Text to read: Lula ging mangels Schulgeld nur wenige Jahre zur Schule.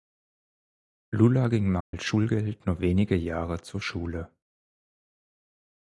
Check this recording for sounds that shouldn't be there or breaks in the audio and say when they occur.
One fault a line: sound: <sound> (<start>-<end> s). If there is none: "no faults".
sound: dropout (1.8-1.9 s)